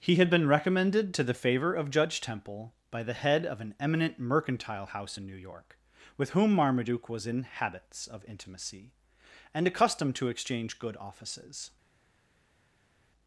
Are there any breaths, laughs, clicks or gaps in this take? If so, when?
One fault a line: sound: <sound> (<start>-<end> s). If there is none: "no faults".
no faults